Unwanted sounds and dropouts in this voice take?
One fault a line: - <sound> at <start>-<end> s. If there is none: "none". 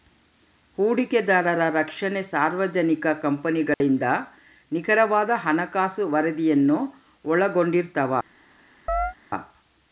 - dropout at 3.7-3.8 s
- chirp at 8.9-9.1 s